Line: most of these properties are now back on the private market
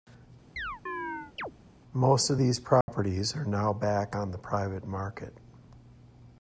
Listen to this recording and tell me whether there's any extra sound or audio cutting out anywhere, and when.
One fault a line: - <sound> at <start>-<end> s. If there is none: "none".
- chirp at 0.6-1.5 s
- dropout at 2.8-2.9 s